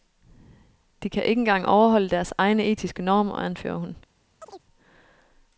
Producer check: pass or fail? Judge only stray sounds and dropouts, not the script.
fail